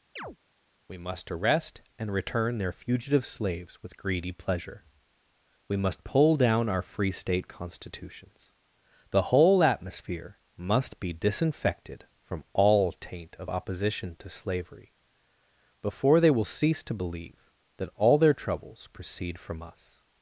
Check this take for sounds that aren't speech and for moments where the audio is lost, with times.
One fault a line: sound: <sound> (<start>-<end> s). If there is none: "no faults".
sound: chirp (0.2-0.4 s)